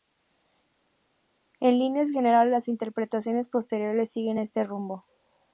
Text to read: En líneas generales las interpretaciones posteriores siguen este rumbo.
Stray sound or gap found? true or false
false